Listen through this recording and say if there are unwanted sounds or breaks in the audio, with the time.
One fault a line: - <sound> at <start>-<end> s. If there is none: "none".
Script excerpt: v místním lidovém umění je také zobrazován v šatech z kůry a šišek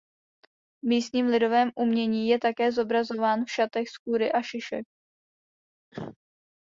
- cough at 5.9-6.2 s